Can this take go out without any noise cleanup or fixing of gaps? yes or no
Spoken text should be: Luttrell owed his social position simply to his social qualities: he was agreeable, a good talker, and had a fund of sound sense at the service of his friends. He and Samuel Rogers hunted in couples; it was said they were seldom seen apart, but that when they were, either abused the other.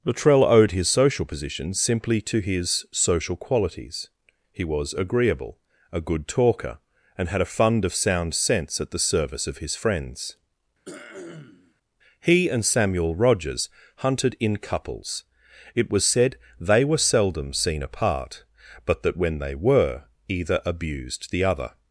no